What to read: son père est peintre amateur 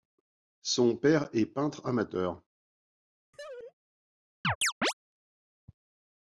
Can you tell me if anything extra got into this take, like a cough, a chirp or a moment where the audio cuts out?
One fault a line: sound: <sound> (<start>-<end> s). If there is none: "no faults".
sound: laugh (3.3-3.7 s)
sound: chirp (4.4-4.9 s)